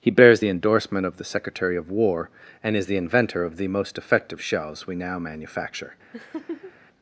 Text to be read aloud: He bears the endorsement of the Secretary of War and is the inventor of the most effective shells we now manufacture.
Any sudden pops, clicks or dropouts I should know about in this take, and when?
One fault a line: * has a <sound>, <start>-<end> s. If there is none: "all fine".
* has a laugh, 6.1-6.7 s